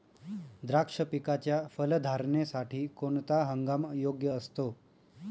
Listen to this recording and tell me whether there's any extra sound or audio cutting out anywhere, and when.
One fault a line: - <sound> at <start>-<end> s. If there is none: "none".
none